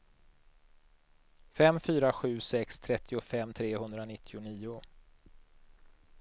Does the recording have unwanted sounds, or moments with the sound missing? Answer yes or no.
no